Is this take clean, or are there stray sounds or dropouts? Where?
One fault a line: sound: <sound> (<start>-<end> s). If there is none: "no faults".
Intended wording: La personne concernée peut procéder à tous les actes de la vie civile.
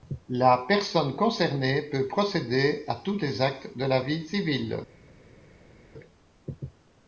no faults